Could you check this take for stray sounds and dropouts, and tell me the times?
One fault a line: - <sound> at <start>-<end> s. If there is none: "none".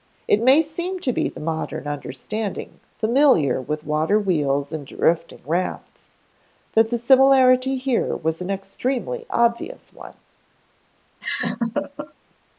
- laugh at 11.2-12.1 s